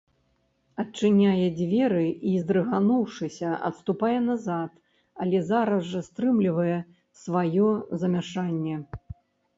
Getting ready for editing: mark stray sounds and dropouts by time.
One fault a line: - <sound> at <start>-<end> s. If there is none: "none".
none